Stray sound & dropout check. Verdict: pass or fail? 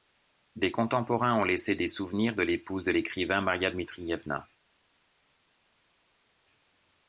pass